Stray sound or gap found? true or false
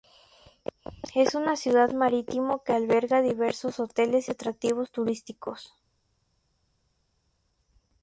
false